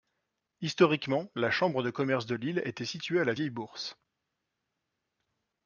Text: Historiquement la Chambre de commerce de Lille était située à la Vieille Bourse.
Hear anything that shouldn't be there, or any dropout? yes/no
no